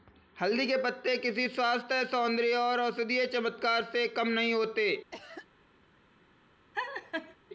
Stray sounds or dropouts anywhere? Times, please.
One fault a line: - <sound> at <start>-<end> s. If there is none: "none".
- cough at 5.1-5.5 s
- laugh at 6.7-7.4 s